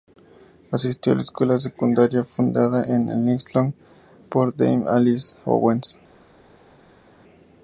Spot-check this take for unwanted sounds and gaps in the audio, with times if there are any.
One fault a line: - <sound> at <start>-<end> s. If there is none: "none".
none